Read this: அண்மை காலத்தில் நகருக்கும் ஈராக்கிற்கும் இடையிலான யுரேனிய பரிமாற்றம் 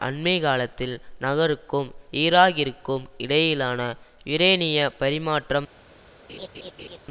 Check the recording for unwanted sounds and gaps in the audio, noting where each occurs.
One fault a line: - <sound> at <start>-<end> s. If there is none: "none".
- laugh at 6.3-7.0 s